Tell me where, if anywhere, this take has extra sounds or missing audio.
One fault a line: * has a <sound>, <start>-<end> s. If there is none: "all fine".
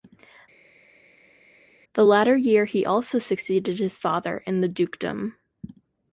all fine